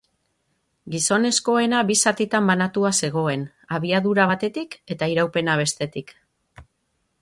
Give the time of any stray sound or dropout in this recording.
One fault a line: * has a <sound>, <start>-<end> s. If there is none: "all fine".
all fine